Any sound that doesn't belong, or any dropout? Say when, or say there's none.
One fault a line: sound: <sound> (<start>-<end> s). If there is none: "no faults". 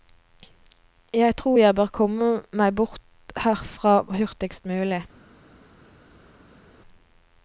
no faults